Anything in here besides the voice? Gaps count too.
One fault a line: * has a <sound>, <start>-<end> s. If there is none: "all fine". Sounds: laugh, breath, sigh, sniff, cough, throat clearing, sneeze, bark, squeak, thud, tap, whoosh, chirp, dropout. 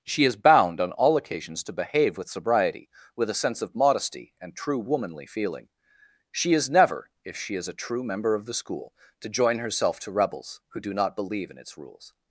all fine